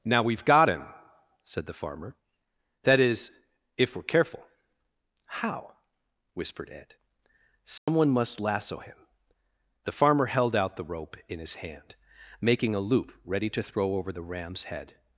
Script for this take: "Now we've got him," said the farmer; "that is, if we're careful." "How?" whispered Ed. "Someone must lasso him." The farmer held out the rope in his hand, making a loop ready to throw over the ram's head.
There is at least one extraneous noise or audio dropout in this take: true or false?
true